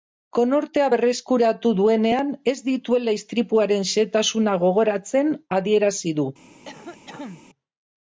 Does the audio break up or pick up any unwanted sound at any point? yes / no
yes